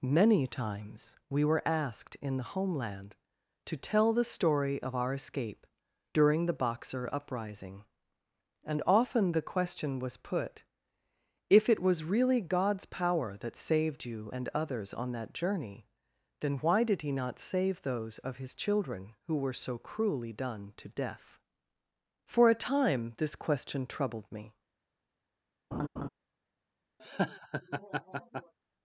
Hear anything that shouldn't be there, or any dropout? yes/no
yes